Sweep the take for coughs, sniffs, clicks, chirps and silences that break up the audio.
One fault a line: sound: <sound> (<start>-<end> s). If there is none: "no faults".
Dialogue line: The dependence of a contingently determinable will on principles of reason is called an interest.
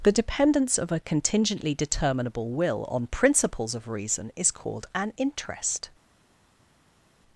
no faults